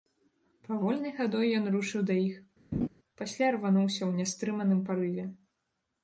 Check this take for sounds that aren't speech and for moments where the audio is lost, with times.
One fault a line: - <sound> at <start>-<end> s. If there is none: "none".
- laugh at 2.7-2.9 s